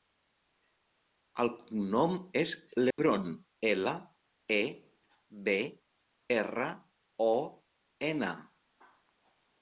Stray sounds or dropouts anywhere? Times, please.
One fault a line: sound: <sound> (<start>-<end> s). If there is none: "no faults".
sound: dropout (2.9-3.0 s)